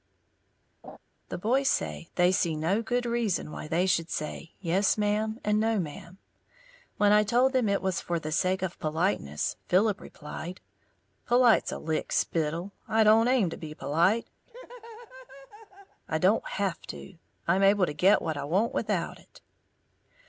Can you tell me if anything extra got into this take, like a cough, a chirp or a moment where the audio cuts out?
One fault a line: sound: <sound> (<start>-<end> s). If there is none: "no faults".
sound: laugh (0.8-1.0 s)
sound: laugh (14.5-16.0 s)